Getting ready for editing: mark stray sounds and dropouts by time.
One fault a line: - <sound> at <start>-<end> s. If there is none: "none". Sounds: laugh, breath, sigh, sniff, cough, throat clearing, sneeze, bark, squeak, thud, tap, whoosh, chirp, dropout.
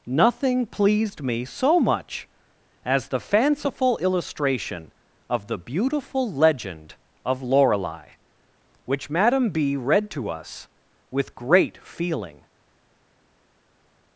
none